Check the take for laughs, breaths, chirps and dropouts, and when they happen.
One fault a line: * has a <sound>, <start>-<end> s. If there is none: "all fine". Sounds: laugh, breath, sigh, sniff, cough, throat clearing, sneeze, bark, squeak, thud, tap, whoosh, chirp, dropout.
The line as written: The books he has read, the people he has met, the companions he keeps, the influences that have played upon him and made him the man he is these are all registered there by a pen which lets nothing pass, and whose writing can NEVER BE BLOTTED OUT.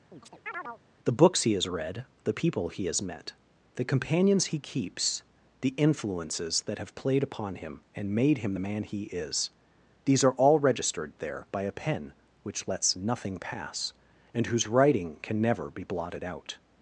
* has a chirp, 0.1-0.8 s